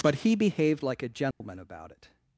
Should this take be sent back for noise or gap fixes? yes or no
yes